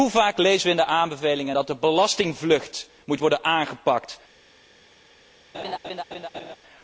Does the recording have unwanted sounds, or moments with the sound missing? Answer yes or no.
yes